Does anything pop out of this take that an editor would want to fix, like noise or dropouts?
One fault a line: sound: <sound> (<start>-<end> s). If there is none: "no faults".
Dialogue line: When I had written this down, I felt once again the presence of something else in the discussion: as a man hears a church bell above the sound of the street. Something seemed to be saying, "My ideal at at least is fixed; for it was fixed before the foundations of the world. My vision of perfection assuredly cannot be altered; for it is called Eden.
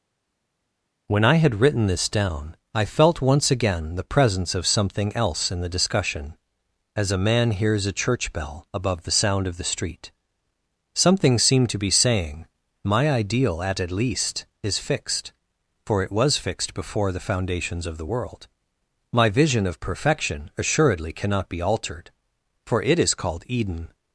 no faults